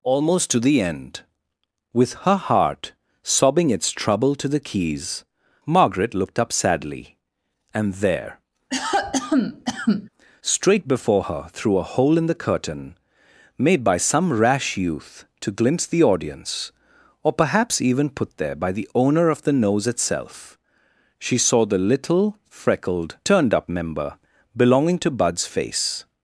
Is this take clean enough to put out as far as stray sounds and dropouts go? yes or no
no